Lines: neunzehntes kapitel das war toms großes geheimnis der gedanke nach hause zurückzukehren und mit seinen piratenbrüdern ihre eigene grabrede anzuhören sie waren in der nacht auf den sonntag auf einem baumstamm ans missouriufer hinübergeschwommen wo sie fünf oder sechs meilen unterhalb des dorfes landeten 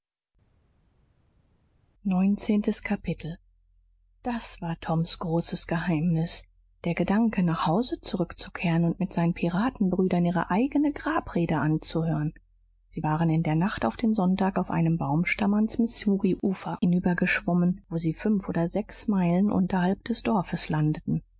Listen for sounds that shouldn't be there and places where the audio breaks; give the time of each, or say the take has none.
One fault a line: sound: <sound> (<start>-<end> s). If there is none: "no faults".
no faults